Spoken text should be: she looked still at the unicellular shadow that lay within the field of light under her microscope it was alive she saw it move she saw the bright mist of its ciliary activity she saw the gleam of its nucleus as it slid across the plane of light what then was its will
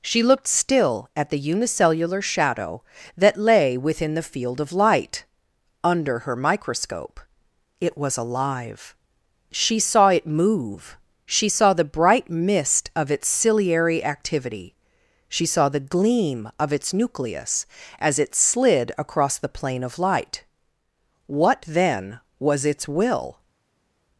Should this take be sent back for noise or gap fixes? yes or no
no